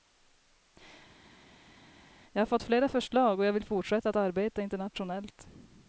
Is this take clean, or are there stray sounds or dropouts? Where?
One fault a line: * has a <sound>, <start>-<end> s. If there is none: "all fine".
all fine